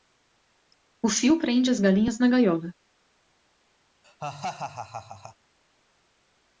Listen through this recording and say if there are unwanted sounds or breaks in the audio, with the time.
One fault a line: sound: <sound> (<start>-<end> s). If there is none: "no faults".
sound: laugh (4.0-5.4 s)